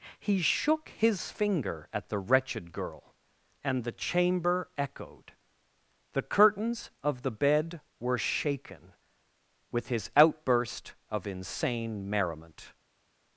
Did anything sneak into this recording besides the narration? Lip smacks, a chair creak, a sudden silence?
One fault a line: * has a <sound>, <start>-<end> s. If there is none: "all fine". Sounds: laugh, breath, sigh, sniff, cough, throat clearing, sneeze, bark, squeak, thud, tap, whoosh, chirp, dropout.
all fine